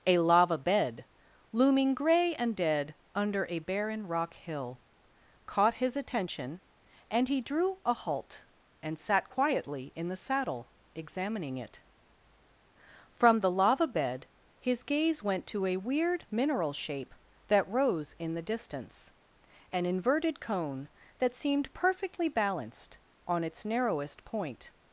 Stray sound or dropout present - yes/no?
no